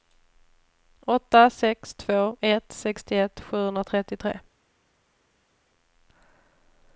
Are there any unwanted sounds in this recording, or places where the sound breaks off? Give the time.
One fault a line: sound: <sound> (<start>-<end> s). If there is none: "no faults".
no faults